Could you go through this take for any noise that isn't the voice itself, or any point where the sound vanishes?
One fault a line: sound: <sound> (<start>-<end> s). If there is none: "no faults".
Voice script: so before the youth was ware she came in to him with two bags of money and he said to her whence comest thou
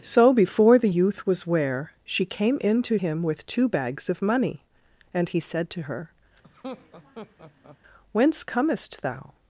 sound: laugh (6.4-7.8 s)